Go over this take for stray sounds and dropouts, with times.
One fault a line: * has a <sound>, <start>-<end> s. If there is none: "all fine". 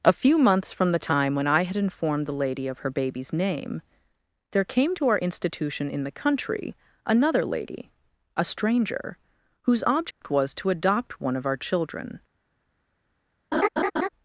* has a dropout, 10.1-10.2 s
* has a laugh, 13.5-14.1 s